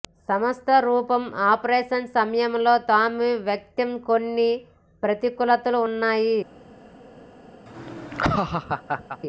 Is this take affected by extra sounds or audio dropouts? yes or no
yes